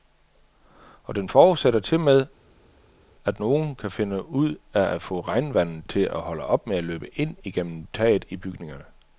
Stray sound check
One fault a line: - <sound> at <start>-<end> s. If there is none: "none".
none